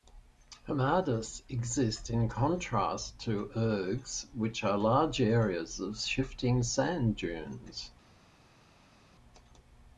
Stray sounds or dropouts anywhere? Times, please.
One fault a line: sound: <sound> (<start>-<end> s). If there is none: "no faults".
no faults